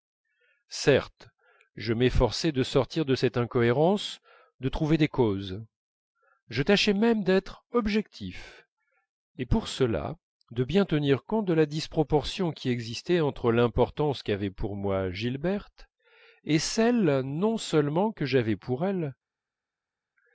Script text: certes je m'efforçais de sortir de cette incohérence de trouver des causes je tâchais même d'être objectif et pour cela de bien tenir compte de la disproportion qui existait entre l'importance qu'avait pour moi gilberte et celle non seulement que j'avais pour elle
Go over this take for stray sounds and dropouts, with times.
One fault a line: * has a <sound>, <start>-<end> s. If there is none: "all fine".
all fine